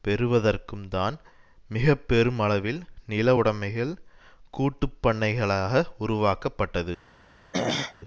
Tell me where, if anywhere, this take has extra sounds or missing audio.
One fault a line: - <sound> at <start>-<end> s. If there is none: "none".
- throat clearing at 7.5-8.0 s